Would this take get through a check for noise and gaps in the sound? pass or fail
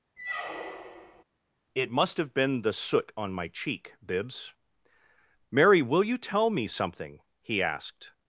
fail